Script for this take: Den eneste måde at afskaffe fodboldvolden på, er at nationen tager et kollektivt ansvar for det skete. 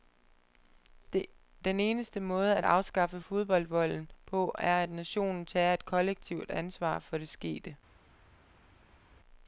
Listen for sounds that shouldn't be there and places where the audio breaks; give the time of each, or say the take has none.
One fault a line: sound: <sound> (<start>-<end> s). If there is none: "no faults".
no faults